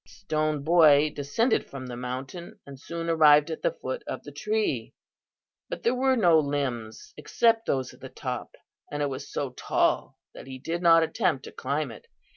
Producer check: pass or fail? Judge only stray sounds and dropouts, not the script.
pass